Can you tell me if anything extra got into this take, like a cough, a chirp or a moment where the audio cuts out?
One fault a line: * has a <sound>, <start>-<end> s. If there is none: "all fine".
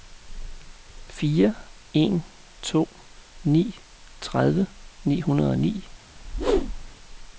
* has a whoosh, 6.2-7.0 s